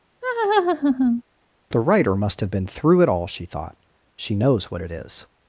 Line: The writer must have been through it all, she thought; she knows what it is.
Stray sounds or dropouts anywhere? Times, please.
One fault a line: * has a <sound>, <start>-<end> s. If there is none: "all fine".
* has a laugh, 0.2-1.2 s